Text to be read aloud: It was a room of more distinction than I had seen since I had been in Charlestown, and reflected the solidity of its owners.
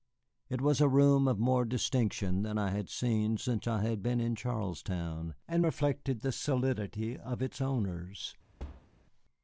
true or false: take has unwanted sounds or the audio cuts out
true